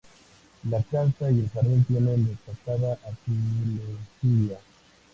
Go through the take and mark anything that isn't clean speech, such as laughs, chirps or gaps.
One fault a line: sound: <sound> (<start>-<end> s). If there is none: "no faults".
no faults